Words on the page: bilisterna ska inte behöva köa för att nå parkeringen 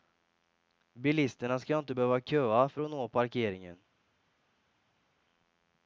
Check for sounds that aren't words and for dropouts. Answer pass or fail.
pass